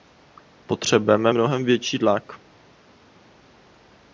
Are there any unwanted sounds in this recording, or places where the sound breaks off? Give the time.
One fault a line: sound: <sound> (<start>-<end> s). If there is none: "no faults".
no faults